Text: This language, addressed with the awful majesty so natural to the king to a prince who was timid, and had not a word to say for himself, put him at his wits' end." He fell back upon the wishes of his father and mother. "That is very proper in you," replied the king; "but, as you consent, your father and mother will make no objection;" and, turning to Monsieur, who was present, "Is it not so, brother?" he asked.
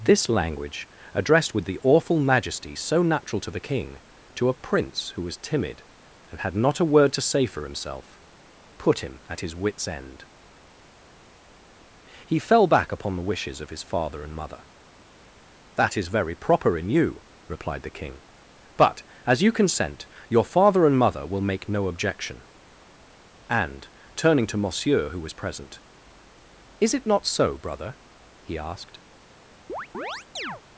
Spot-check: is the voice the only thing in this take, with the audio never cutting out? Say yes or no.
no